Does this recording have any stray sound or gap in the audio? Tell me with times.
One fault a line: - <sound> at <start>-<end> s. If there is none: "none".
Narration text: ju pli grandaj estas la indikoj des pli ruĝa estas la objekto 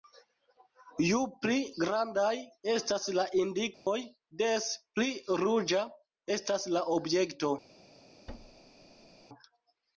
- dropout at 3.7-3.9 s
- thud at 8.3-9.3 s